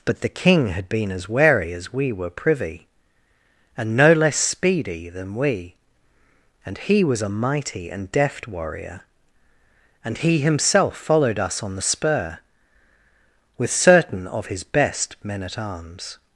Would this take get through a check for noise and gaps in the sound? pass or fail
pass